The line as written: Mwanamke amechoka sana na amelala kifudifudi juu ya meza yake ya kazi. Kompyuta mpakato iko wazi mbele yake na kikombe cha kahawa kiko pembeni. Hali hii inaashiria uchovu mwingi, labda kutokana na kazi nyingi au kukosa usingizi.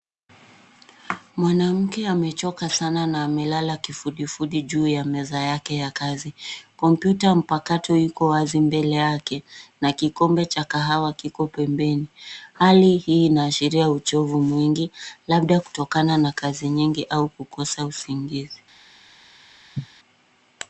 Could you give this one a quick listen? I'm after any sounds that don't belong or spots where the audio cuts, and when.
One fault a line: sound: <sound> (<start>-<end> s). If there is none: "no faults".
sound: cough (19.7-19.9 s)